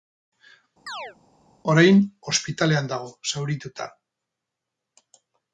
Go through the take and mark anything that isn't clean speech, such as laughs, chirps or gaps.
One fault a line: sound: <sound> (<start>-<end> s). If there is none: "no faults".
sound: chirp (0.9-1.2 s)